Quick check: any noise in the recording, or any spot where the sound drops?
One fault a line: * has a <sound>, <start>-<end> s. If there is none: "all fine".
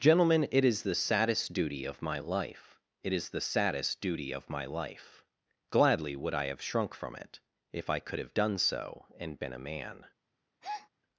* has a breath, 10.6-10.9 s